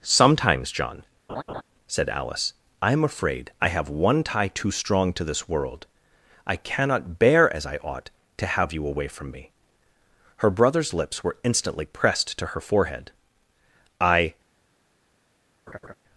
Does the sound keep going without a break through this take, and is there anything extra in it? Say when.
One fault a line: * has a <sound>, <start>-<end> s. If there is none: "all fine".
* has a laugh, 1.3-1.6 s
* has a laugh, 15.7-15.9 s